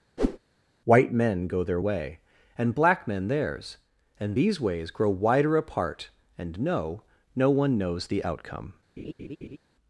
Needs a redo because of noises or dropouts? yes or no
yes